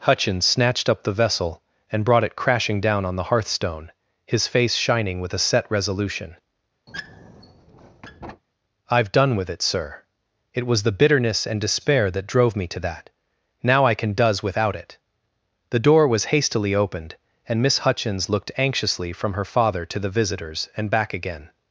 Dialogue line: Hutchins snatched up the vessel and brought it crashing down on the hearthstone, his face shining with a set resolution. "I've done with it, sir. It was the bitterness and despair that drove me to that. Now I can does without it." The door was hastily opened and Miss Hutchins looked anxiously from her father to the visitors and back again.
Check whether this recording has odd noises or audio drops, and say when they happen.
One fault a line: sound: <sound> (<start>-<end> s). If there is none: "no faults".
sound: squeak (6.9-8.4 s)